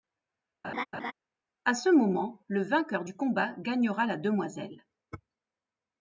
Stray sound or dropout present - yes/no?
yes